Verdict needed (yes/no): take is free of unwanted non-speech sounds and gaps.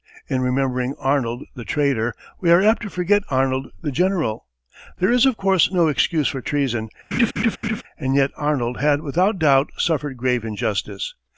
no